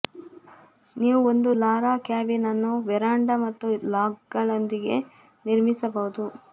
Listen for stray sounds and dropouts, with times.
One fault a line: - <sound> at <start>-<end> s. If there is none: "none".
none